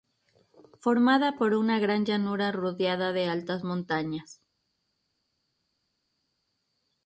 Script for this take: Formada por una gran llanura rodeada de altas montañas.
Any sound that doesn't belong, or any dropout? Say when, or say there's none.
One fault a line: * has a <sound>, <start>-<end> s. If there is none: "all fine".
all fine